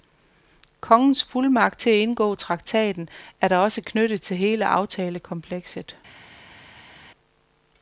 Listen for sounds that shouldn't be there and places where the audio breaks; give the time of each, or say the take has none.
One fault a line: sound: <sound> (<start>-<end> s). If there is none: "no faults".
no faults